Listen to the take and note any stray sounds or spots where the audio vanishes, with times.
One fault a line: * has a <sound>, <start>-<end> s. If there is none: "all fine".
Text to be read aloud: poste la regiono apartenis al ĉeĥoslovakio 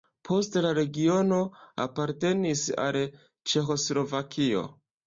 all fine